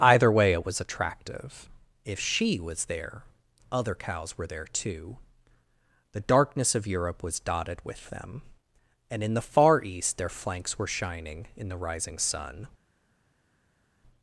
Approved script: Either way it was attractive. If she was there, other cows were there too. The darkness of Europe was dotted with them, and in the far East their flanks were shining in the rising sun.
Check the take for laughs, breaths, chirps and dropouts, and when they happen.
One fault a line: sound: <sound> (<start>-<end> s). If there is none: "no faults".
no faults